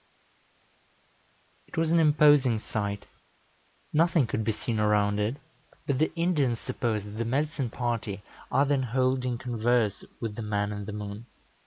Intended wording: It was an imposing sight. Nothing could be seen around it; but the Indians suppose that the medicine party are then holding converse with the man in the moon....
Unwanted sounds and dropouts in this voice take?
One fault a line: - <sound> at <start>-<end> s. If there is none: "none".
none